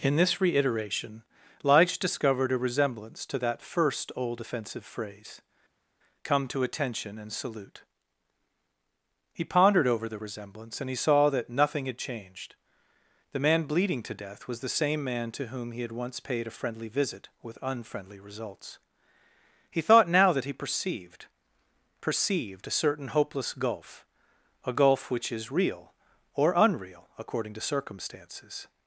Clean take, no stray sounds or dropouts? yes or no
yes